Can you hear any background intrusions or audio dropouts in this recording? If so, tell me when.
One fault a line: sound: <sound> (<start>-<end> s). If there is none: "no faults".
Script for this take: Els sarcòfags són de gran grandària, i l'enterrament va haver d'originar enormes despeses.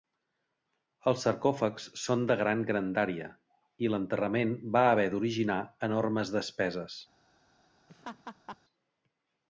sound: laugh (7.9-8.6 s)